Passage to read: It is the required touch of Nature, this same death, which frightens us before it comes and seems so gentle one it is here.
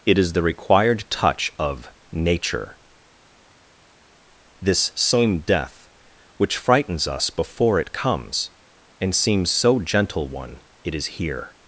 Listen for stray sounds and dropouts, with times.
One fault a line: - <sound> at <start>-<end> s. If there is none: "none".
none